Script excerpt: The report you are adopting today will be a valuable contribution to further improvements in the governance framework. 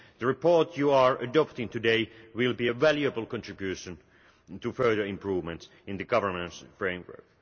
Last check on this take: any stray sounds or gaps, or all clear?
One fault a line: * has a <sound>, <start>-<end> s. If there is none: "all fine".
all fine